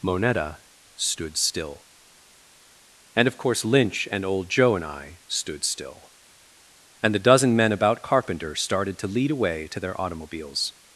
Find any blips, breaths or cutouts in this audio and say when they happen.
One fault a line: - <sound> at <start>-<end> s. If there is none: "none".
none